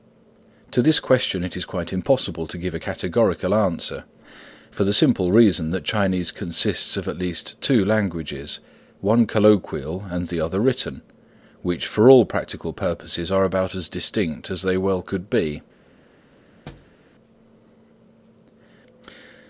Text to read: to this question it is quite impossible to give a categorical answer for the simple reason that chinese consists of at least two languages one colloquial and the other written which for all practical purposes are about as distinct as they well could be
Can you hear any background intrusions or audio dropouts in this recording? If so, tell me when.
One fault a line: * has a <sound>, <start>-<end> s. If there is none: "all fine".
* has a thud, 16.7-17.0 s